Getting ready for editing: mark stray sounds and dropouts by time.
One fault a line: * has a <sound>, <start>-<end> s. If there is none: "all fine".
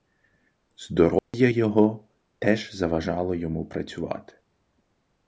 * has a dropout, 1.2-1.3 s